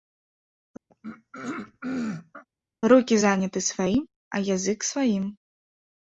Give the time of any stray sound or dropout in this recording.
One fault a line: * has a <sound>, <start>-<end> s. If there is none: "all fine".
* has a throat clearing, 0.9-2.4 s